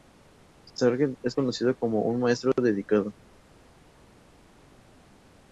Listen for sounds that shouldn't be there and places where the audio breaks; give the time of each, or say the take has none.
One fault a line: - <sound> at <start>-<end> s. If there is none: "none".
none